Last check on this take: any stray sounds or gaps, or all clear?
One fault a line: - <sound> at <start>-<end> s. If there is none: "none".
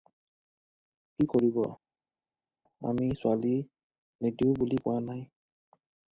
none